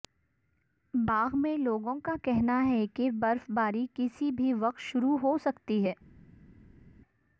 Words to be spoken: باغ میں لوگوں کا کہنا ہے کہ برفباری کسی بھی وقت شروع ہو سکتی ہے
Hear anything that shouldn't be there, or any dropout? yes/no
no